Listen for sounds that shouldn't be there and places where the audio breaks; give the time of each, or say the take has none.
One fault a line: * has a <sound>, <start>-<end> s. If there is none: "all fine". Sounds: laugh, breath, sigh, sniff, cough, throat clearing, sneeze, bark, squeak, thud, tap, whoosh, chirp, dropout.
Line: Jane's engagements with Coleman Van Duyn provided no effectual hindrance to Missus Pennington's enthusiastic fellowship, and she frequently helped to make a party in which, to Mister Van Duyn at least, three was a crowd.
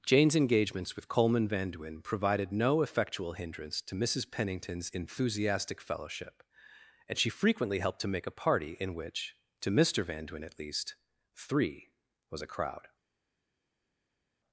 all fine